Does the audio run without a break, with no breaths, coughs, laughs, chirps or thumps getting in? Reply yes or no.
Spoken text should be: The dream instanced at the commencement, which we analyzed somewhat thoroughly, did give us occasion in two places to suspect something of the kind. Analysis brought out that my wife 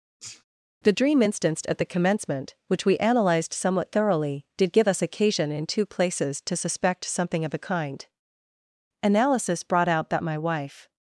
no